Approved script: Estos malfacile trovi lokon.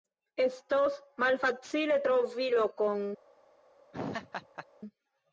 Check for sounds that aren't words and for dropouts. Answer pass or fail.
fail